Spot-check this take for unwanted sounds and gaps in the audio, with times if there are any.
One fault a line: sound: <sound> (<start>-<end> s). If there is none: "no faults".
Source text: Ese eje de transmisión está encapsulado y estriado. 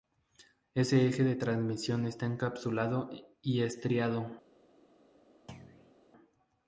sound: thud (5.5-5.9 s)